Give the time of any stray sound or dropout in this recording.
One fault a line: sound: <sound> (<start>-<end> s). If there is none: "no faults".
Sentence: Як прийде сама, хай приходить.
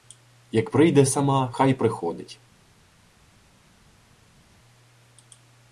no faults